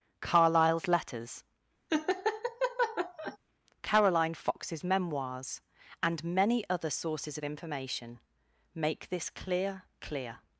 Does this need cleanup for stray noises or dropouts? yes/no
yes